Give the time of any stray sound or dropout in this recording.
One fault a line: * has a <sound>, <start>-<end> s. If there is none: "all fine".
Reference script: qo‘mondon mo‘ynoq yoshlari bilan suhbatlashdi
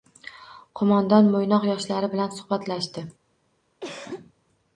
* has a cough, 3.8-4.3 s